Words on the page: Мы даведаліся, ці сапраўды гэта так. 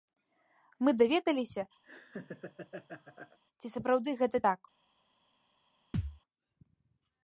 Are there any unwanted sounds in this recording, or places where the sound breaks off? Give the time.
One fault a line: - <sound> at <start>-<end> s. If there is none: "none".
- laugh at 1.8-3.4 s
- thud at 5.9-6.2 s